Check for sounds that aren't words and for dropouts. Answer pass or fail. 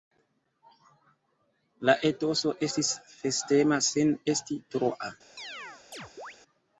fail